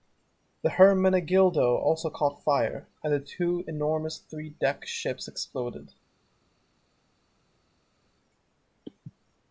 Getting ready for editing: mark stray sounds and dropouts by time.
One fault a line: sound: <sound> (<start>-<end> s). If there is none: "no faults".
no faults